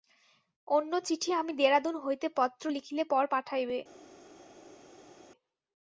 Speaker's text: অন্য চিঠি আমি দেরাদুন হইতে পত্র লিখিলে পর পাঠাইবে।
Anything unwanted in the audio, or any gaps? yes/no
no